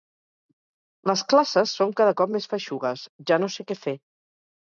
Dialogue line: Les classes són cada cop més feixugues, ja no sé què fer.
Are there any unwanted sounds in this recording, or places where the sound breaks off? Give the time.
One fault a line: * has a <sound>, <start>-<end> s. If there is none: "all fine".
all fine